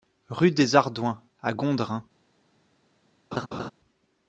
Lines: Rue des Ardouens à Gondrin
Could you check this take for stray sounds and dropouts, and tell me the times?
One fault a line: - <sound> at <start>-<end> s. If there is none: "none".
- laugh at 3.3-3.7 s